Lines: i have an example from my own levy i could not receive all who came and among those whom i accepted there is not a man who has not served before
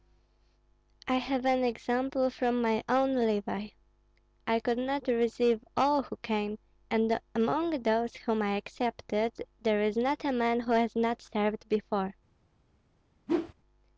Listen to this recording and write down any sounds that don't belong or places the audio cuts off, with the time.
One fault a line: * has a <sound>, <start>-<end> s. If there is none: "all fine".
* has a whoosh, 13.3-13.5 s